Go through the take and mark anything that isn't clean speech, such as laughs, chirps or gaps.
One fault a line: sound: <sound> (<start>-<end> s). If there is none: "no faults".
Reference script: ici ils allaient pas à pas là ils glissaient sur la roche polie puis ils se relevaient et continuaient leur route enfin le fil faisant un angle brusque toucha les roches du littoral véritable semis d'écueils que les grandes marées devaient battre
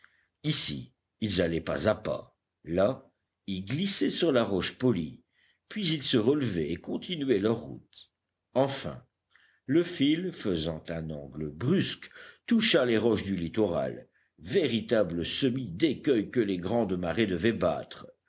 no faults